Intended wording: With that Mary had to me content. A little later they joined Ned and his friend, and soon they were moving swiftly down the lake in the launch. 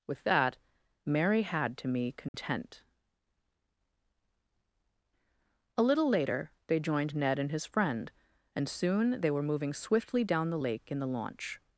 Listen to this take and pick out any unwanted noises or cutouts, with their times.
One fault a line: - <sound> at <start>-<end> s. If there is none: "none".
- dropout at 2.3-2.3 s